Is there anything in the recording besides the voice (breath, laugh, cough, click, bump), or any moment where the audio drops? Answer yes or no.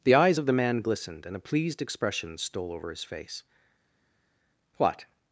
no